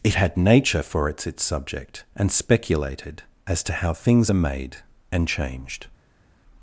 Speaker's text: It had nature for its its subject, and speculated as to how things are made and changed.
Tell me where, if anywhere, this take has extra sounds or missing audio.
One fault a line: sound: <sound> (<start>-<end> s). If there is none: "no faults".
no faults